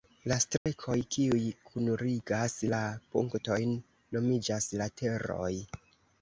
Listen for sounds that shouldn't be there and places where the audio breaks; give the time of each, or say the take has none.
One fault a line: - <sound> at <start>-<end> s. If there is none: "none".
- dropout at 0.6-0.7 s